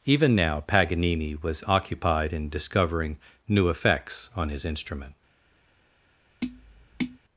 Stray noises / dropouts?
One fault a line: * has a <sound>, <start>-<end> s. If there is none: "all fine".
* has a tap, 6.4-7.2 s